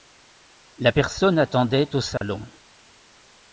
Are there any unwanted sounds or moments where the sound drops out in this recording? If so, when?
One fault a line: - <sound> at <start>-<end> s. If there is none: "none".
- dropout at 2.2-2.2 s